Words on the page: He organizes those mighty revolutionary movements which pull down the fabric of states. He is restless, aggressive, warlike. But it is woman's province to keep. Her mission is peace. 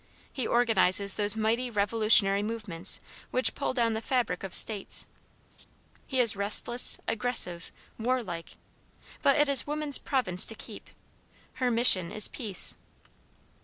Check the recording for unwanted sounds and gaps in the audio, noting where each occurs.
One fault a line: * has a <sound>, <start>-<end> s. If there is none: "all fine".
* has a laugh, 5.5-5.7 s